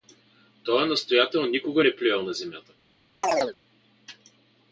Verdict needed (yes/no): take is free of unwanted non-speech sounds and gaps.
no